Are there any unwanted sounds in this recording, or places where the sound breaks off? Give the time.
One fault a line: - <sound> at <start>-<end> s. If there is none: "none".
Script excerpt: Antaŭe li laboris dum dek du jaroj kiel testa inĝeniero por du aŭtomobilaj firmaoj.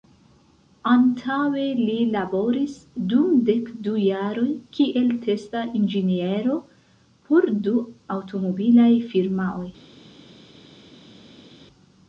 none